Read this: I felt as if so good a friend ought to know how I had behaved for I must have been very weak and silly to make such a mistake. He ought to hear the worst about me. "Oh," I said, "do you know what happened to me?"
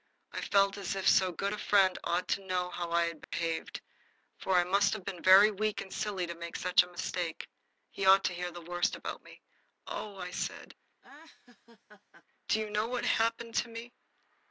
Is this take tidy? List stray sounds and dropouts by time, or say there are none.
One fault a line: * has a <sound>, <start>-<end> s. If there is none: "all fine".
* has a dropout, 3.2-3.3 s
* has a laugh, 11.0-12.3 s